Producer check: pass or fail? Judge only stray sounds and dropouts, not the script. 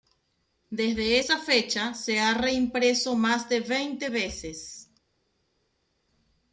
pass